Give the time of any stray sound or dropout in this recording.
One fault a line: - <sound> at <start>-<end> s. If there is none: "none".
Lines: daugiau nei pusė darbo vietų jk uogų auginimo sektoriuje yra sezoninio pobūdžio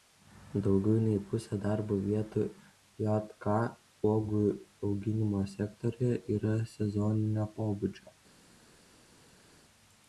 none